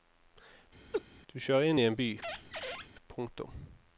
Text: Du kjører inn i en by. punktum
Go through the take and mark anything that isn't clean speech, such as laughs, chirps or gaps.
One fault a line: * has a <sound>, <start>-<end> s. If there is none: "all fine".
* has a laugh, 0.9-1.0 s
* has a squeak, 2.2-2.9 s